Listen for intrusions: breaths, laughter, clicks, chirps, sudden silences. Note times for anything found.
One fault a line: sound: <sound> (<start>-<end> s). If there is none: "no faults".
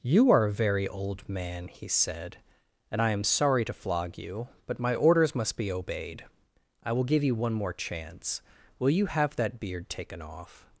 no faults